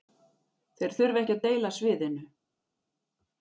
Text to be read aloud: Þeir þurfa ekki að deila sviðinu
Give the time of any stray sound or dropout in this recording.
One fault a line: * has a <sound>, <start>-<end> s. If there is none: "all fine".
all fine